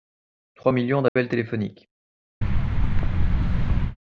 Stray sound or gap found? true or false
true